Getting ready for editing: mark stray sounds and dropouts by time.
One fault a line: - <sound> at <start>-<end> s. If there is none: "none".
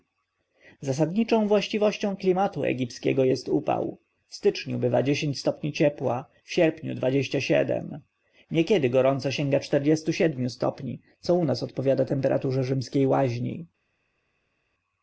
none